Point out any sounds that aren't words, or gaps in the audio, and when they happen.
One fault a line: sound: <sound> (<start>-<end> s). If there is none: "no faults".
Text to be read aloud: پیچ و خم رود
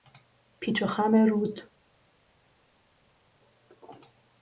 no faults